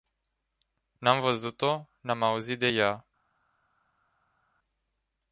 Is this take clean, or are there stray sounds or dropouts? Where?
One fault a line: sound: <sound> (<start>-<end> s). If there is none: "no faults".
no faults